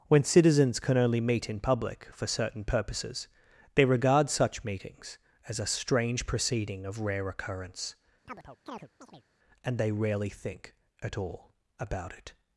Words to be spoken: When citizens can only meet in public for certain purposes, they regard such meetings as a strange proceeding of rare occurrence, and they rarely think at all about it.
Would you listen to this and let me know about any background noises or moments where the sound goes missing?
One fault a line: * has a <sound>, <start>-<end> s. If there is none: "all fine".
* has a chirp, 8.3-9.2 s